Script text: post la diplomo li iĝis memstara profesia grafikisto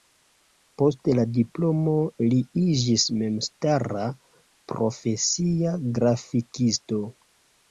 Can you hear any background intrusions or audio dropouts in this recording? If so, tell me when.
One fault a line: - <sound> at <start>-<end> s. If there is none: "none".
none